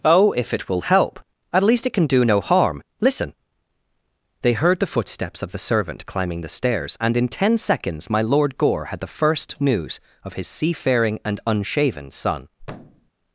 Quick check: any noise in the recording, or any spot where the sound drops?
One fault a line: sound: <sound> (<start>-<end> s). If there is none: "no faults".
sound: thud (12.6-13.1 s)